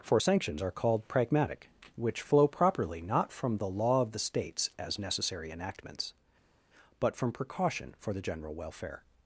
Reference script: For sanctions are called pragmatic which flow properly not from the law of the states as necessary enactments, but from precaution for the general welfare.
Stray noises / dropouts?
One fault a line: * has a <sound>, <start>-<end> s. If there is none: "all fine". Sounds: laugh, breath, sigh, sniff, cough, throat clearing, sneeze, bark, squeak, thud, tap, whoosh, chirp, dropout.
all fine